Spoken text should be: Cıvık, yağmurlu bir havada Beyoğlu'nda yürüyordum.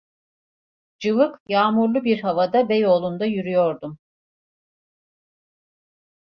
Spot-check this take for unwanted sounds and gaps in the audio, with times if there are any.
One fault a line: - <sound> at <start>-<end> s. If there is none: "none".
none